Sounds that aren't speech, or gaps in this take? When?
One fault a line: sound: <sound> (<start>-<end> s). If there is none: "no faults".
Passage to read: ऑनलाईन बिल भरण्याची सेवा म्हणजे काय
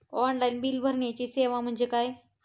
no faults